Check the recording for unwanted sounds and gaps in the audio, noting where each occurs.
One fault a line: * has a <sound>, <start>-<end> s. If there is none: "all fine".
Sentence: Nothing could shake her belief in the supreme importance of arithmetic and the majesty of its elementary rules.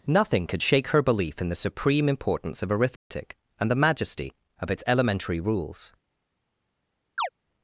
* has a dropout, 3.0-3.1 s
* has a chirp, 7.2-7.3 s